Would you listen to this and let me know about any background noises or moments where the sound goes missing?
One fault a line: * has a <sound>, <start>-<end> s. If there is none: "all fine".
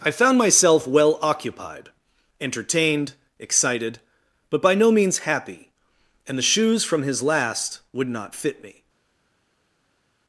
all fine